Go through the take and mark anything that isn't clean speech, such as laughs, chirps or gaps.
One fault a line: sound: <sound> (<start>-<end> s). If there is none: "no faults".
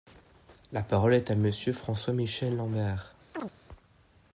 sound: chirp (3.3-3.5 s)